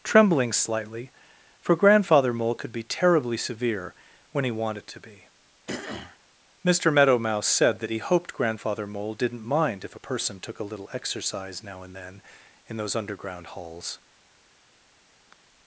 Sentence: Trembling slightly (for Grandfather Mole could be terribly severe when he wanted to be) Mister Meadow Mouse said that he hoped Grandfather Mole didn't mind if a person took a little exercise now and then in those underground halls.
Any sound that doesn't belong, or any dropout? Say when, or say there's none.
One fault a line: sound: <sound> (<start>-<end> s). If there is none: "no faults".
sound: throat clearing (5.7-6.2 s)
sound: sigh (15.3-15.4 s)